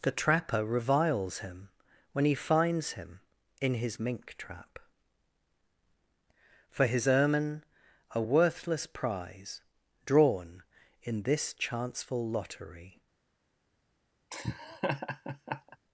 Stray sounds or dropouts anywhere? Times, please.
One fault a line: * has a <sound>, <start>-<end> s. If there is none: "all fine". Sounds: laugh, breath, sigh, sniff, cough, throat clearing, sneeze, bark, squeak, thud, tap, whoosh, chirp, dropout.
* has a laugh, 14.3-15.8 s